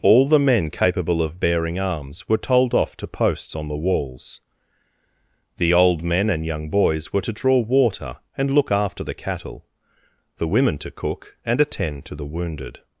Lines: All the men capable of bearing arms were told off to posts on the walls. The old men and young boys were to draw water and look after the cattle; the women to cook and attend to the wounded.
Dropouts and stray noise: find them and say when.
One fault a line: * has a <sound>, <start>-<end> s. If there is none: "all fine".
all fine